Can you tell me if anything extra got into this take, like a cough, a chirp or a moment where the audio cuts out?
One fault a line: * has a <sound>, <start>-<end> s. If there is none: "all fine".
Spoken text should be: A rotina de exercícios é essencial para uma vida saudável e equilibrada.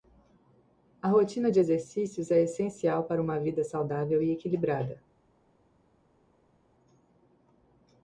all fine